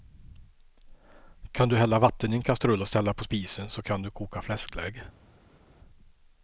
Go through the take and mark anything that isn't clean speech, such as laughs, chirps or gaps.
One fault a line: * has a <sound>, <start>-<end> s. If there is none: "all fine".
all fine